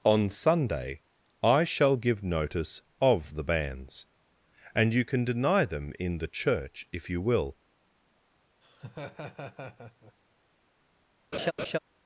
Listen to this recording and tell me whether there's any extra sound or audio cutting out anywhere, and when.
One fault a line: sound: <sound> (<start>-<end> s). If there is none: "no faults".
sound: laugh (8.6-10.1 s)
sound: laugh (11.3-11.8 s)